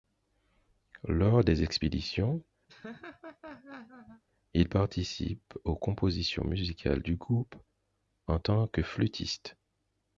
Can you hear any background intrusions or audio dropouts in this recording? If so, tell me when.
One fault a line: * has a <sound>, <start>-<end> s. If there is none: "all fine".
* has a laugh, 2.7-4.2 s